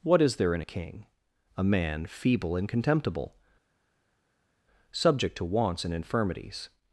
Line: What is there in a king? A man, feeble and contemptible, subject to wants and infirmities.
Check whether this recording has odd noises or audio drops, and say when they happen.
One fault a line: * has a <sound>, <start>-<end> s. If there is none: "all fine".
all fine